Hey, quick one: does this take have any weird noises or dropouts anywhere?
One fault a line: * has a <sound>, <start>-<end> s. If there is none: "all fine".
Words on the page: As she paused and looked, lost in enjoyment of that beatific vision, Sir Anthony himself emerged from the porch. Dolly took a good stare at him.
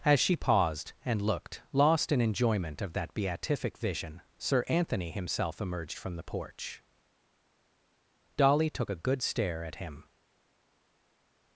all fine